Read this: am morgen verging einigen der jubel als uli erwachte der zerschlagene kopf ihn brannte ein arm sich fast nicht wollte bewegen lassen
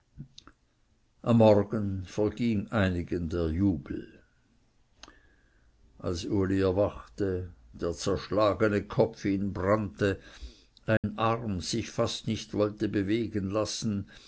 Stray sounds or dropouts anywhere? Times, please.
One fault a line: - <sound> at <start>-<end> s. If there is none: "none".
- dropout at 11.0-11.0 s